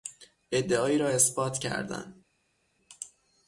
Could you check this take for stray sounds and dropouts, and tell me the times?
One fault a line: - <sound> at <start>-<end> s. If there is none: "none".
none